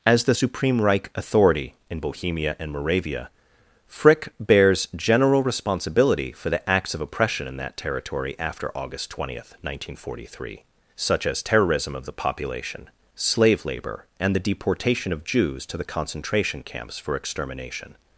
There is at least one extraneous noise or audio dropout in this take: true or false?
false